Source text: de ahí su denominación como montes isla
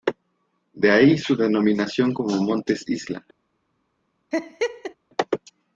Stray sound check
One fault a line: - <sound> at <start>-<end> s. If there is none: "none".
- laugh at 4.3-4.9 s